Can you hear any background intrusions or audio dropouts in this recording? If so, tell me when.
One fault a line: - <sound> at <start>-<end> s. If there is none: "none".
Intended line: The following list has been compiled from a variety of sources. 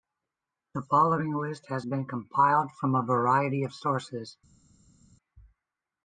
none